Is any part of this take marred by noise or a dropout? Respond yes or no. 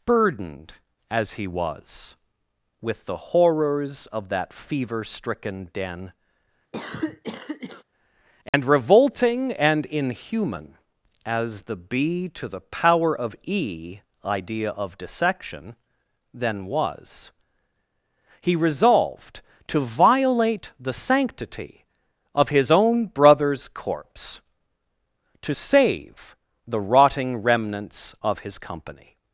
yes